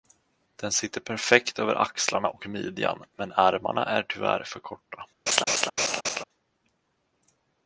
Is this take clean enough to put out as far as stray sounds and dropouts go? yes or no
no